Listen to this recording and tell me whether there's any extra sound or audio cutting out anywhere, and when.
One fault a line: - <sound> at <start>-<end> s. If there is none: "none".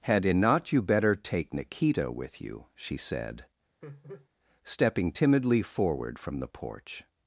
- laugh at 3.8-4.3 s